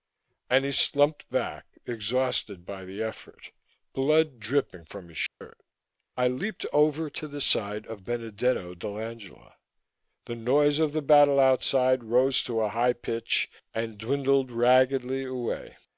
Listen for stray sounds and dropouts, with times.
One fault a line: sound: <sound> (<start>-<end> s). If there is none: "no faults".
sound: dropout (5.3-5.4 s)